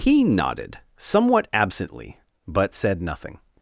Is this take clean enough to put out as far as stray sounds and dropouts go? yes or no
yes